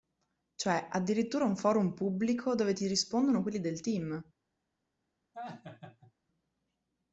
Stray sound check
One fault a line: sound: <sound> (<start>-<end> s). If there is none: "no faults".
sound: laugh (5.3-6.1 s)